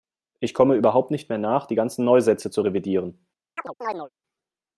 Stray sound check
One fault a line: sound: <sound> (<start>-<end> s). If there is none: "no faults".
sound: chirp (3.6-4.1 s)